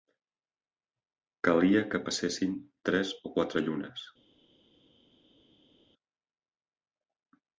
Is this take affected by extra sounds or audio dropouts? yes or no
no